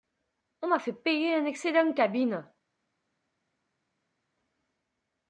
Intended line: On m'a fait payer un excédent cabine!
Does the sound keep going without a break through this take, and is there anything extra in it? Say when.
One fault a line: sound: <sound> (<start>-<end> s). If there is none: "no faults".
no faults